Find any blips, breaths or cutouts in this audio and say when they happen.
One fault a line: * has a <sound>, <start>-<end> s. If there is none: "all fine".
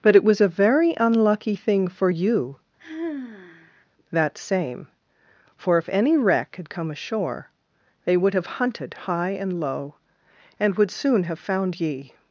* has a sigh, 2.8-3.9 s